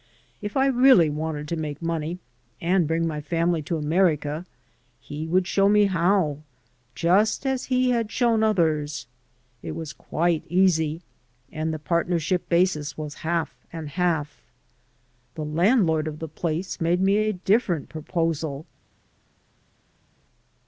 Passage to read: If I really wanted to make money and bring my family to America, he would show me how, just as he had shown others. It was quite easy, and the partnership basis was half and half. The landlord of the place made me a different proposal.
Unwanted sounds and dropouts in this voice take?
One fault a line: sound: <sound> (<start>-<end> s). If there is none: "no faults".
no faults